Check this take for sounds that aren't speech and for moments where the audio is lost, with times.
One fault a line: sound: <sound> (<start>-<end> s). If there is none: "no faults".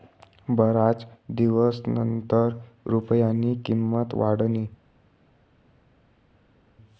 no faults